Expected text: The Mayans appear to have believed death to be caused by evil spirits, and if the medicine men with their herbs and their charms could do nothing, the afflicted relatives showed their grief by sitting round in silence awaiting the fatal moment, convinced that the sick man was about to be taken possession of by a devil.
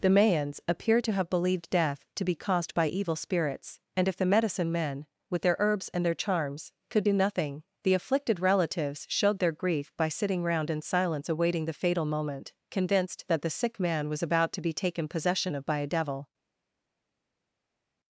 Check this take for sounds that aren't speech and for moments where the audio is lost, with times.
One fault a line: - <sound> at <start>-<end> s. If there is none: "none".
none